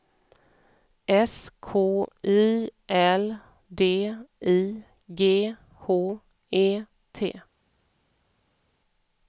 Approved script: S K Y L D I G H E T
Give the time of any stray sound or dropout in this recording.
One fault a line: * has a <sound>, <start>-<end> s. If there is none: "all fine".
all fine